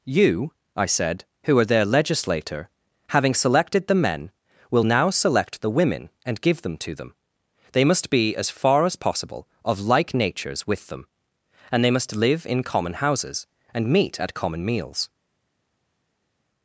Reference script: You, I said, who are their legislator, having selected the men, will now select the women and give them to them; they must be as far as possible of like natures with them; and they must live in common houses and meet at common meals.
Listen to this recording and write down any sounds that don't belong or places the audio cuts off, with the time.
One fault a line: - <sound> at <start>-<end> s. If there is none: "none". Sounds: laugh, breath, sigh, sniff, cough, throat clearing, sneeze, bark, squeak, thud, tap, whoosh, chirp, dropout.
none